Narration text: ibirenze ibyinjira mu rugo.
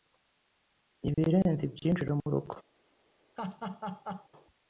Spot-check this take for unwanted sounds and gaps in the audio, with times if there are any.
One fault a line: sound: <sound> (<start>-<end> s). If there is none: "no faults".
sound: dropout (1.1-1.2 s)
sound: laugh (3.4-4.3 s)